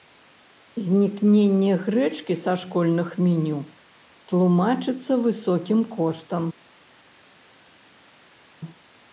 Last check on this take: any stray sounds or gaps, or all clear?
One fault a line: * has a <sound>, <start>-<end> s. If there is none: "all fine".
all fine